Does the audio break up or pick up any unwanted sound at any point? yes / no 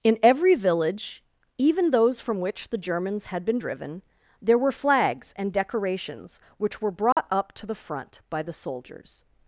yes